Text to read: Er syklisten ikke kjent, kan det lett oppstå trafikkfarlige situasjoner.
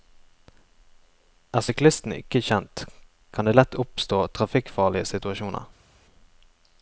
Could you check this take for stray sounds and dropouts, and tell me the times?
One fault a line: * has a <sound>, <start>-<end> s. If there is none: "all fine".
all fine